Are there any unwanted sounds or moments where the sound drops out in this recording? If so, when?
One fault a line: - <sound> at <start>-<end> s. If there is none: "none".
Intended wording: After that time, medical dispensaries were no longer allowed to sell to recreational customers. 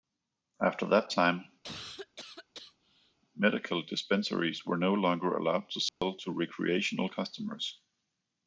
- cough at 1.6-3.2 s
- dropout at 5.9-6.0 s